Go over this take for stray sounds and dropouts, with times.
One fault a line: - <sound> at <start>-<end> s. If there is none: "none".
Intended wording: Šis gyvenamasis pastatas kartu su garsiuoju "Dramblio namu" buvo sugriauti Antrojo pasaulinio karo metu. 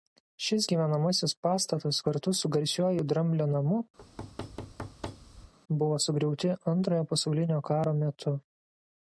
- thud at 4.0-5.5 s